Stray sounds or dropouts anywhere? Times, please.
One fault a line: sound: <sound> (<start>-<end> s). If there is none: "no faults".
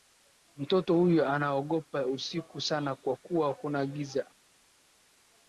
no faults